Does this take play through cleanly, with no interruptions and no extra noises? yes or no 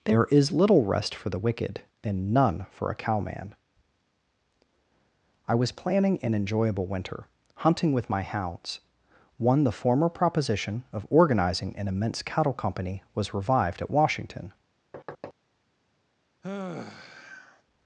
no